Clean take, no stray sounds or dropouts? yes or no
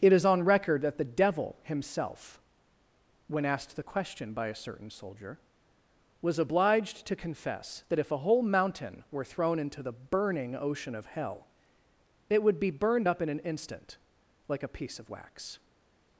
yes